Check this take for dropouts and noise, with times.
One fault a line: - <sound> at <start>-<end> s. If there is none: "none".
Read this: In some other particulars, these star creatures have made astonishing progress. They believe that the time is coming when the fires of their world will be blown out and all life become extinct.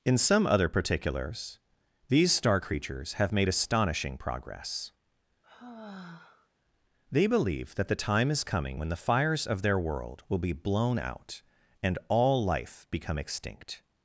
- sigh at 5.4-6.5 s